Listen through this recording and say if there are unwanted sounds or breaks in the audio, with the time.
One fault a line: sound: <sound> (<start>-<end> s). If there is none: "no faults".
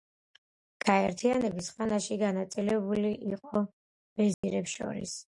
sound: dropout (4.3-4.4 s)